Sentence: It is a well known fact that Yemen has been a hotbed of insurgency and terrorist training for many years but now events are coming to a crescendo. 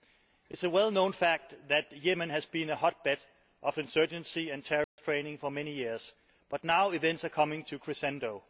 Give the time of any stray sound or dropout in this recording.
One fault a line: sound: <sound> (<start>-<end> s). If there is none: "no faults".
sound: dropout (4.8-5.0 s)